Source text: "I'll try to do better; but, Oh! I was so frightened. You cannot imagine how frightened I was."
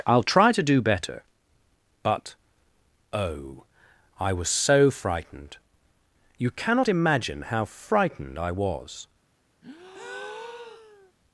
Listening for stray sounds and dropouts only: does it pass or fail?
fail